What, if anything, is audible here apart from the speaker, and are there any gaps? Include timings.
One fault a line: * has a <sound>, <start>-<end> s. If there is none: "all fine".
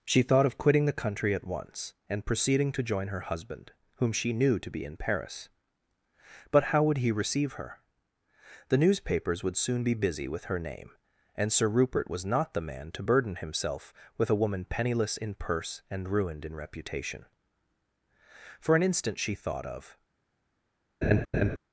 * has a laugh, 21.0-21.6 s